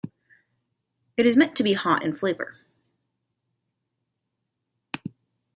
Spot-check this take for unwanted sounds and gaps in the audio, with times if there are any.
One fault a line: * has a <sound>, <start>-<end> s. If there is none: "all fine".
all fine